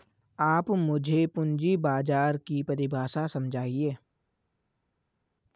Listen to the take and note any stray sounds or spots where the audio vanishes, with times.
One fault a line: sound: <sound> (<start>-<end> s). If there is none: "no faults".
no faults